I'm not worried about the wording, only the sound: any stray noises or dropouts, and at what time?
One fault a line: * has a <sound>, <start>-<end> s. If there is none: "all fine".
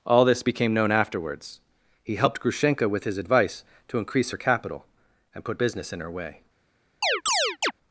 * has a chirp, 7.0-7.7 s